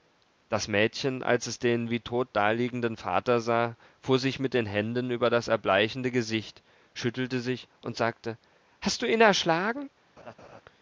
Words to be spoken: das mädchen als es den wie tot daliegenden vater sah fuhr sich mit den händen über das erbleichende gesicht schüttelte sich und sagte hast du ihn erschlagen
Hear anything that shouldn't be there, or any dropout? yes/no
yes